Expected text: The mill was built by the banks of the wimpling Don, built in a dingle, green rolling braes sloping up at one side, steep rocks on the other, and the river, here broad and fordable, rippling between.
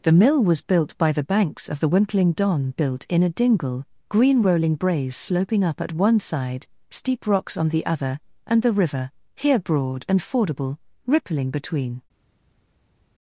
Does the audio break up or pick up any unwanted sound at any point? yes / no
no